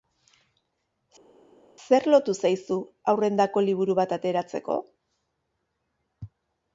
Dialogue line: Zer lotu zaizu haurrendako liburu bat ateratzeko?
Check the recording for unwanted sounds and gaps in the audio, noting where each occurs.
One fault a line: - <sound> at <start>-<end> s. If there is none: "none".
none